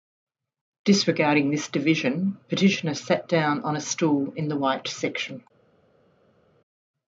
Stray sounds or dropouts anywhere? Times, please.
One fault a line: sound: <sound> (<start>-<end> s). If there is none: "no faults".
no faults